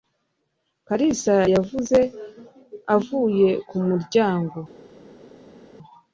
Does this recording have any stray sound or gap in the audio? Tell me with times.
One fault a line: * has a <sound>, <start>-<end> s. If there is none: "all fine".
all fine